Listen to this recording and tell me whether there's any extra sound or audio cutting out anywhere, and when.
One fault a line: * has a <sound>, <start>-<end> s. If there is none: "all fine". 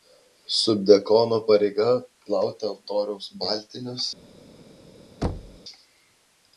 * has a thud, 5.2-5.6 s